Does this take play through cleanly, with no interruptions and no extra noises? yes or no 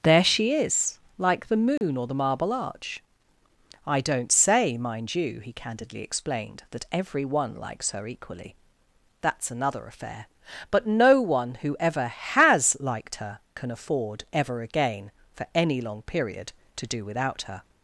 no